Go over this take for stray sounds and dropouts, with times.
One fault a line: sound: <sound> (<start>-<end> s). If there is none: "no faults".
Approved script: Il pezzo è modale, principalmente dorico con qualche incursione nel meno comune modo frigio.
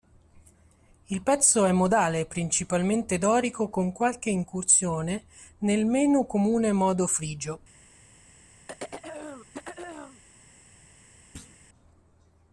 sound: throat clearing (8.7-10.2 s)
sound: thud (11.3-11.6 s)